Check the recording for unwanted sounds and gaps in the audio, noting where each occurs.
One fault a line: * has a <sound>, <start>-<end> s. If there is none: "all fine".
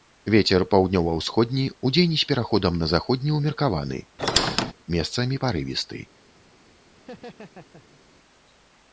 * has a squeak, 4.2-4.7 s
* has a laugh, 6.9-8.0 s